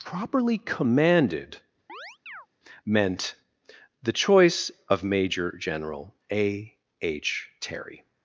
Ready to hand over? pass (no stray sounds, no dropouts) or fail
fail